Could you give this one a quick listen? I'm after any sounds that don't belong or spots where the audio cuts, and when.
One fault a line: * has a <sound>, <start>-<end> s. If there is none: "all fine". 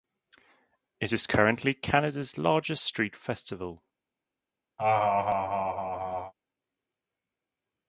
* has a laugh, 4.8-6.3 s